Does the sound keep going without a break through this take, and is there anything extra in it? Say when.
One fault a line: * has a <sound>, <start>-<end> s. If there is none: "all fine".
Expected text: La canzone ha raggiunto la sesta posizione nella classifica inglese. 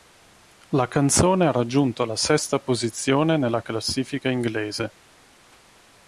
all fine